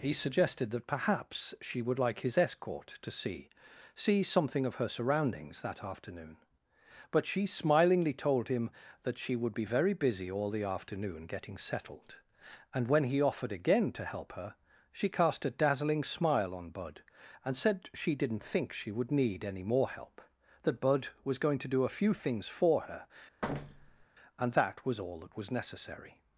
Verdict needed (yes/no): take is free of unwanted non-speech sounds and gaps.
no